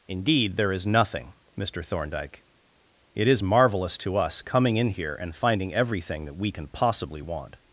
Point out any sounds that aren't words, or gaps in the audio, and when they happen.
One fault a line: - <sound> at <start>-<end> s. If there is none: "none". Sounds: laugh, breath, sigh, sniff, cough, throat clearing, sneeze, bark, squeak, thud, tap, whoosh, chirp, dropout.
none